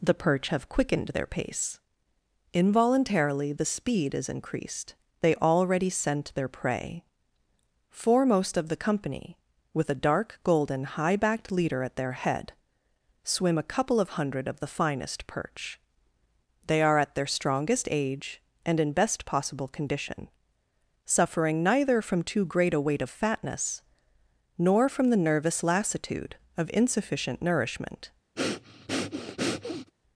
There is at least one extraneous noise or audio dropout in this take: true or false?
true